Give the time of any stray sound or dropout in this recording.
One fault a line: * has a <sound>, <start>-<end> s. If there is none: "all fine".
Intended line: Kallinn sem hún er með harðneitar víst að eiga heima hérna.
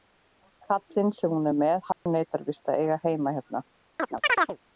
* has a dropout, 1.9-2.1 s
* has a chirp, 4.0-4.6 s